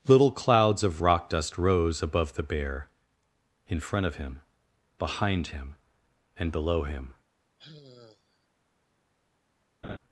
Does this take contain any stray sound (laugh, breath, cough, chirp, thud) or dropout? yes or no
yes